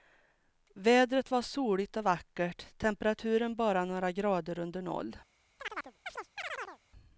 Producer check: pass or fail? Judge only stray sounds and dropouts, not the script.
fail